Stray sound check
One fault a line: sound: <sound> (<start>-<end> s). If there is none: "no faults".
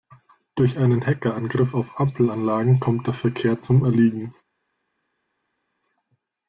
no faults